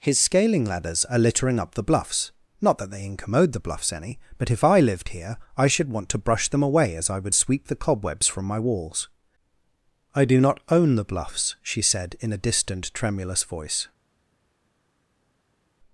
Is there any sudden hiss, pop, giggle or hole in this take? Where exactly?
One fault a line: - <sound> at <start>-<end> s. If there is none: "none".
none